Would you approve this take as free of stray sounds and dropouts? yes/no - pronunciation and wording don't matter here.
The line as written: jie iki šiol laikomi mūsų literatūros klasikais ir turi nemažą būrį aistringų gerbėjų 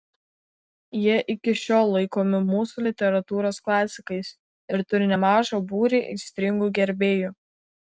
yes